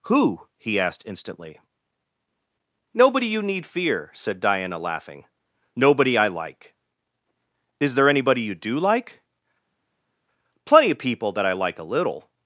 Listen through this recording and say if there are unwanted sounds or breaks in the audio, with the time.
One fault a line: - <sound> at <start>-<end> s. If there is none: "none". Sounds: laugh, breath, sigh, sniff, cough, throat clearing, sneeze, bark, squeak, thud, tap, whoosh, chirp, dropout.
none